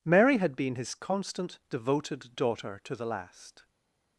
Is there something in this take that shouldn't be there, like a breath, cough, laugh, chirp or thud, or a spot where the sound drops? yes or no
no